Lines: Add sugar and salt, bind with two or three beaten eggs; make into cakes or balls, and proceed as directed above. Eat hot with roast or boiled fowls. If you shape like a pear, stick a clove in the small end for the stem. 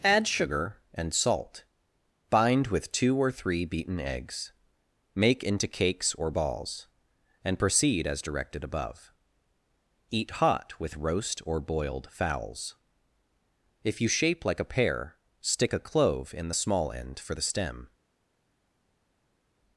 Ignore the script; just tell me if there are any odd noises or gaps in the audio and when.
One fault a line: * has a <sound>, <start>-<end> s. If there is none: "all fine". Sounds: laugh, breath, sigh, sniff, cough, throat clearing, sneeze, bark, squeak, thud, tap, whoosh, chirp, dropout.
all fine